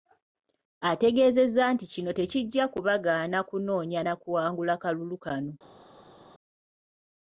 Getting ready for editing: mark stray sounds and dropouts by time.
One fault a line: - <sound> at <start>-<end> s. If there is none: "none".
none